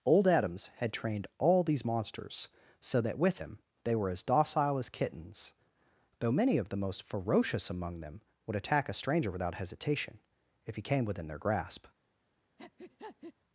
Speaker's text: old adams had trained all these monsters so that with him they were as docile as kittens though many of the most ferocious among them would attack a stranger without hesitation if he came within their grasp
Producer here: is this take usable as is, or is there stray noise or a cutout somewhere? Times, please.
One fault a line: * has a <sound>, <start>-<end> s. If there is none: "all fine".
* has a breath, 12.6-13.3 s